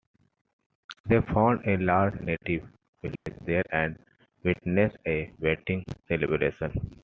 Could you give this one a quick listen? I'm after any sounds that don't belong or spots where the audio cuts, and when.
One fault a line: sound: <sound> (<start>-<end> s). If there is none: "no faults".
sound: dropout (3.2-3.3 s)